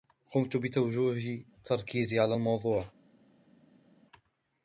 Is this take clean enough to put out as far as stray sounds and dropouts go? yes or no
yes